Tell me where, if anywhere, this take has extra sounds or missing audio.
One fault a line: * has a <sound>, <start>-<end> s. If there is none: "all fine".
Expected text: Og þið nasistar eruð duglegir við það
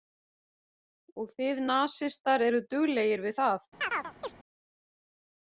* has a chirp, 3.8-4.3 s